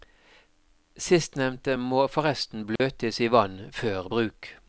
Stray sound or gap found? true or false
true